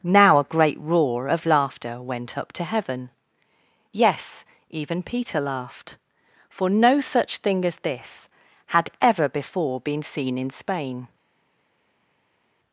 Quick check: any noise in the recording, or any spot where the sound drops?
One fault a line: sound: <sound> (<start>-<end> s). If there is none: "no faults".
no faults